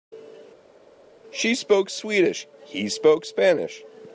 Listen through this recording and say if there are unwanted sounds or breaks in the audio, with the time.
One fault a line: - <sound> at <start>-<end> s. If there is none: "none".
none